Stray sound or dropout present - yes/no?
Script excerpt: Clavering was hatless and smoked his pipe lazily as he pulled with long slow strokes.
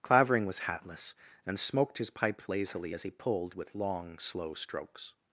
no